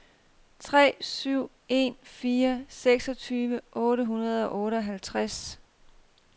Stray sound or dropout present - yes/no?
no